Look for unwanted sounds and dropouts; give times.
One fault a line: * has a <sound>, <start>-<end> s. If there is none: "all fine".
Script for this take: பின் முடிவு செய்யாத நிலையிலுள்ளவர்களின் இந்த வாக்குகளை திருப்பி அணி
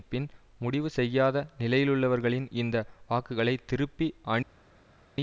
all fine